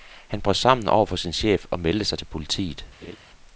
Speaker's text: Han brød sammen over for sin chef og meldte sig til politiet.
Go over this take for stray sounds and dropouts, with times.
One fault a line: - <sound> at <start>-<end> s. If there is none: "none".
- laugh at 3.0-3.2 s